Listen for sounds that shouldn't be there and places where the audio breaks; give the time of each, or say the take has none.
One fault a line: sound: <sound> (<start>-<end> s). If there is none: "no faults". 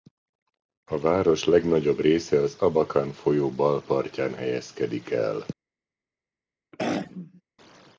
sound: throat clearing (6.7-7.4 s)